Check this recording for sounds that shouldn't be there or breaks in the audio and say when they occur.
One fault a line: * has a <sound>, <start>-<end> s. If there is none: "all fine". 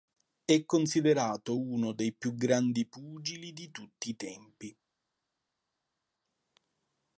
all fine